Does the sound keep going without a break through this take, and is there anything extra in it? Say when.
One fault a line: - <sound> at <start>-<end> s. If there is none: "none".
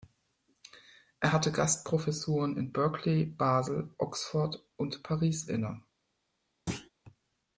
- thud at 6.7-6.9 s